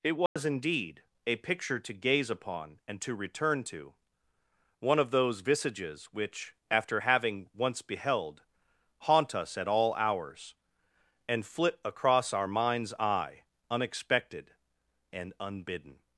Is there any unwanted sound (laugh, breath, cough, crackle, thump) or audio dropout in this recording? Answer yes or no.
yes